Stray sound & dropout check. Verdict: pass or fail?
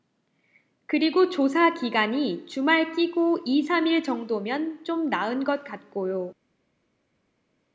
pass